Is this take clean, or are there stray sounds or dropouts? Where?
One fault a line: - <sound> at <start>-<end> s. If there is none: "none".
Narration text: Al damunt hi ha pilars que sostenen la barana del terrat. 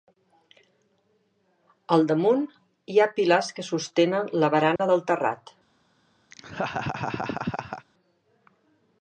- dropout at 4.8-4.8 s
- laugh at 6.3-7.9 s